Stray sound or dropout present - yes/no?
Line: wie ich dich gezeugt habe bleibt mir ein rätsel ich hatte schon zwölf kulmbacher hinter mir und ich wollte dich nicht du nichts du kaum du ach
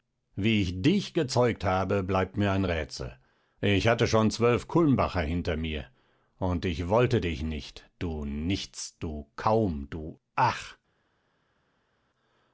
no